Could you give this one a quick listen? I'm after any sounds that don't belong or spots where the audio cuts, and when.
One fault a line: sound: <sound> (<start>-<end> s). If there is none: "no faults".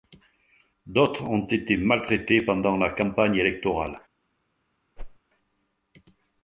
sound: whoosh (5.0-5.2 s)